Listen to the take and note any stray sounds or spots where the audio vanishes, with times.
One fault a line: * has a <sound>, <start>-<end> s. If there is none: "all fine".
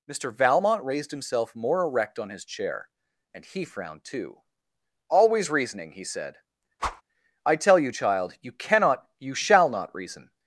* has a whoosh, 6.8-7.0 s